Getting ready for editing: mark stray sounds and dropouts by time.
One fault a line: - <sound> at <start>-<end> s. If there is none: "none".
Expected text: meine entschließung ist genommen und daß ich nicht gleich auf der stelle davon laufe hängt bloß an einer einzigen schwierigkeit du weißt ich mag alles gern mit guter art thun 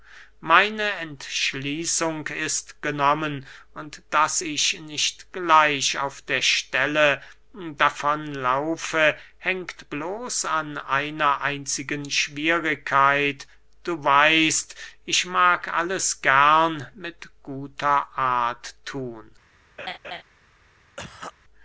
- laugh at 19.8-20.2 s
- cough at 21.0-21.3 s